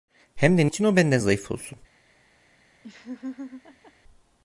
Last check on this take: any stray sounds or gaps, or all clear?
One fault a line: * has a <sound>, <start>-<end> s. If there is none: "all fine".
* has a laugh, 2.8-3.9 s